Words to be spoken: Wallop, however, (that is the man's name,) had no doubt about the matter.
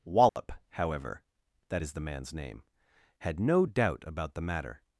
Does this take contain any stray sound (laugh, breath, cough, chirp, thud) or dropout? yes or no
yes